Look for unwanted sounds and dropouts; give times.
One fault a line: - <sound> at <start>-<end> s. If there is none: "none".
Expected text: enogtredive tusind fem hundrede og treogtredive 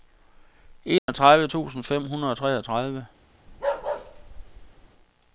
- dropout at 1.0-1.1 s
- bark at 3.5-4.9 s